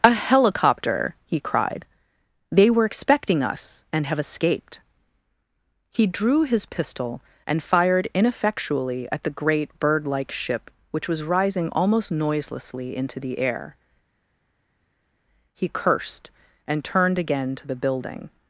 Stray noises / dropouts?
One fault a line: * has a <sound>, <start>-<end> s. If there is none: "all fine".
all fine